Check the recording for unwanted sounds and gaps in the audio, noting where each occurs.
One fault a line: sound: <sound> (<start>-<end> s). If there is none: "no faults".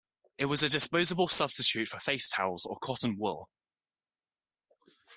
no faults